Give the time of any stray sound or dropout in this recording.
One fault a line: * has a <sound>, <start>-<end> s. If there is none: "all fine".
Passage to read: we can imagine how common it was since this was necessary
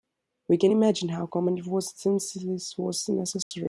* has a dropout, 3.4-3.5 s